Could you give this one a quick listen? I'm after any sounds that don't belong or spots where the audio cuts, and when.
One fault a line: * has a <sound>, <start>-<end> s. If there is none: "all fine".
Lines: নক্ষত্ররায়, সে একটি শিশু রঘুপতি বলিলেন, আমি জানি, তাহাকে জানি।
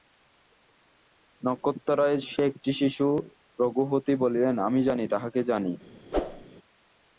* has a whoosh, 6.1-6.5 s